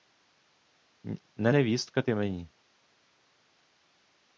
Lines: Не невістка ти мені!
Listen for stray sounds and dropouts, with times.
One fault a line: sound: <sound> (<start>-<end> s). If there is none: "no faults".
no faults